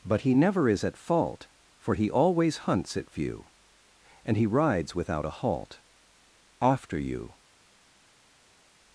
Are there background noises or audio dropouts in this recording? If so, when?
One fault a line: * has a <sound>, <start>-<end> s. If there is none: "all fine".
all fine